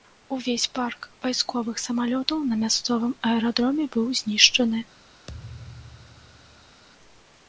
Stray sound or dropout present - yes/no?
yes